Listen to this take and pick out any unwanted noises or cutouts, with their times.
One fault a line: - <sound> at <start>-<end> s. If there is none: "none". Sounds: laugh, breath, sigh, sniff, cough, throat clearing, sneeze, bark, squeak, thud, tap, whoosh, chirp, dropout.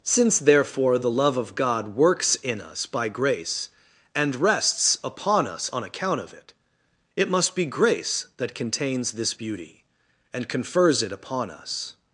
none